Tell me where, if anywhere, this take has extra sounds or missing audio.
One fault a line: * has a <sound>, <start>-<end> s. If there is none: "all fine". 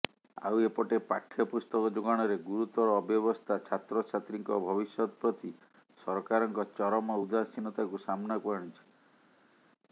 all fine